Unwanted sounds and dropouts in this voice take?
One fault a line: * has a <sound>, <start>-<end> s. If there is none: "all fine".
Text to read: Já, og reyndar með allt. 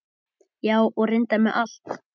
all fine